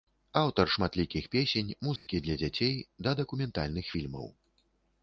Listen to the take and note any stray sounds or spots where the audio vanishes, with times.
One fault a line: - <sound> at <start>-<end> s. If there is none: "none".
- dropout at 2.0-2.1 s